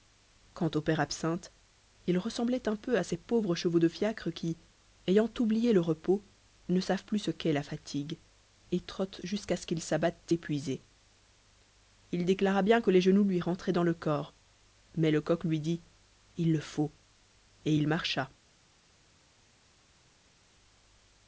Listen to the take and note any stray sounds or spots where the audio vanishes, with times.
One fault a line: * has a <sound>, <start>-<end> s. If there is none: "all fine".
all fine